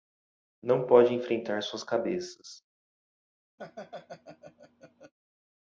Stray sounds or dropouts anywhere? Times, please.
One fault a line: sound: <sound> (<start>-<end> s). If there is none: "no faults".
sound: laugh (3.6-5.1 s)